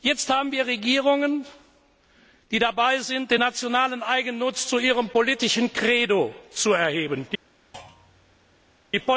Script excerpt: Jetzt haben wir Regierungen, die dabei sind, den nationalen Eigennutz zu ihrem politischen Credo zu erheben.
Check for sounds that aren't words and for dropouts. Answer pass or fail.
fail